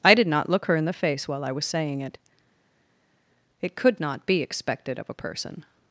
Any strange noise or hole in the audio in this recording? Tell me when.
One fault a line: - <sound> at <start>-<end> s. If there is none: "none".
none